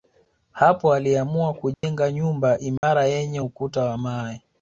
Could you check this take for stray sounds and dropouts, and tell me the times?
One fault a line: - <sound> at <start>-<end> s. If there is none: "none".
- dropout at 1.7-1.8 s
- dropout at 2.8-2.8 s